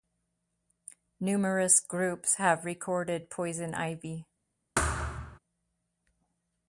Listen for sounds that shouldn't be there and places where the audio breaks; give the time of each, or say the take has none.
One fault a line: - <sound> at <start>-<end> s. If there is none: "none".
- thud at 4.8-5.4 s